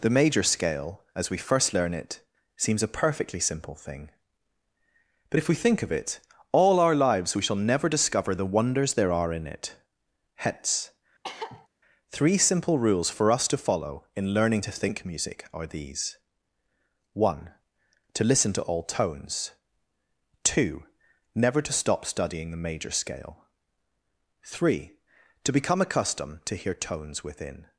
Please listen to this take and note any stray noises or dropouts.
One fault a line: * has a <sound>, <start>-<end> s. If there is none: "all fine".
* has a cough, 11.2-11.7 s